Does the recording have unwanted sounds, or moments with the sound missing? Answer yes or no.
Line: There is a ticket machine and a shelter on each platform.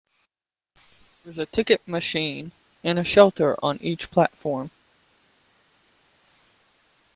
no